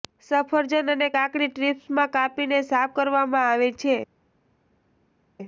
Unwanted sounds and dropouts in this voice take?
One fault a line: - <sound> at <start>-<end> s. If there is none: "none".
none